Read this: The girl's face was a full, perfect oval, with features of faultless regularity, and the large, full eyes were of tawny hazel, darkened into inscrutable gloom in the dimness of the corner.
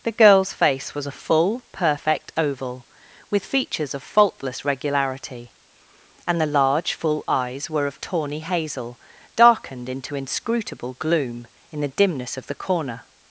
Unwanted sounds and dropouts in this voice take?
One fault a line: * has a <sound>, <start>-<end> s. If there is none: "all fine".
all fine